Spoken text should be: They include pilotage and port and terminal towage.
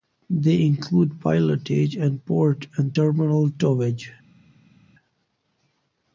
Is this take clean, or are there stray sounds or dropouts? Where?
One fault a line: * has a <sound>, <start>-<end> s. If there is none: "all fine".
all fine